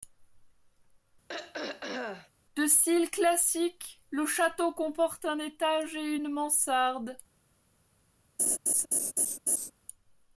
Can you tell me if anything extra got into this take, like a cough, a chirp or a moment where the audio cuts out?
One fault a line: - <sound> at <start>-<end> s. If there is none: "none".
- throat clearing at 1.3-2.3 s
- laugh at 8.4-9.7 s